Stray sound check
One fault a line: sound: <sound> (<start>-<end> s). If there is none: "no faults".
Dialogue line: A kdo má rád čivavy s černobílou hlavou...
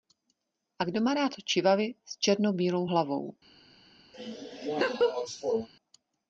sound: laugh (4.1-5.7 s)